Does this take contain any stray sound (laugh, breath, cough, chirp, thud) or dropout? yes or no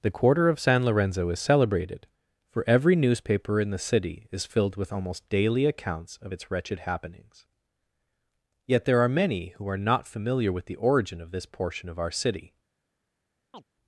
yes